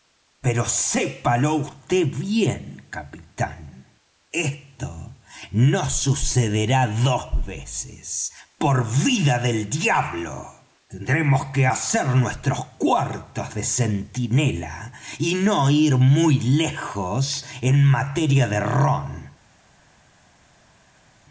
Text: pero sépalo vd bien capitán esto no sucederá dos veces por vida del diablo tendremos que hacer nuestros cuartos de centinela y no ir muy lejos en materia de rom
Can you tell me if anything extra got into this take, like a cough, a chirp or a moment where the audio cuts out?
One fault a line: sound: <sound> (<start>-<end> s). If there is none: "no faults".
no faults